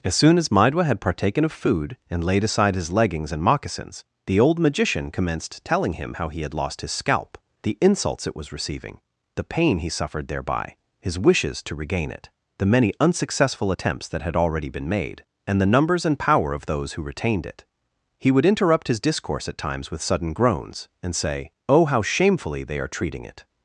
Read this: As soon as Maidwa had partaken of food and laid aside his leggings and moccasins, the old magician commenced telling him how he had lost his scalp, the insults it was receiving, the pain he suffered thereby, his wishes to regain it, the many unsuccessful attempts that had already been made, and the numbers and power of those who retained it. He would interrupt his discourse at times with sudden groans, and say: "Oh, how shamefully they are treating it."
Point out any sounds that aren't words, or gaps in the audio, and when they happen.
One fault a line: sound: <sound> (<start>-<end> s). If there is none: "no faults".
no faults